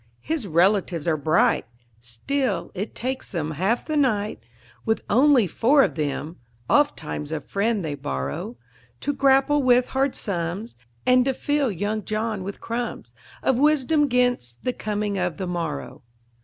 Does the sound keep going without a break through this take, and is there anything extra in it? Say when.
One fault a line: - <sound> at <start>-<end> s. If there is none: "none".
none